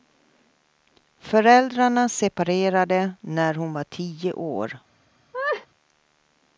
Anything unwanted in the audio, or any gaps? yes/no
yes